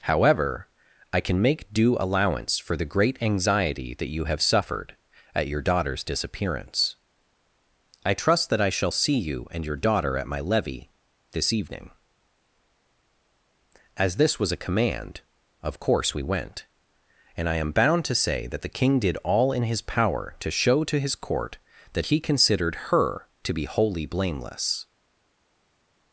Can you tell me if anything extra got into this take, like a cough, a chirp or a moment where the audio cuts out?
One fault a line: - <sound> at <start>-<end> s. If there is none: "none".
none